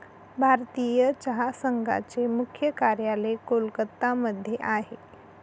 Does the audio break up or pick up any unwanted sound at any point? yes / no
no